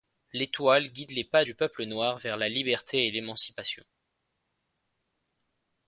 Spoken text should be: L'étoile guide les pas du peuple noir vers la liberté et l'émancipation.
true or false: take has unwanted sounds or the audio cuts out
false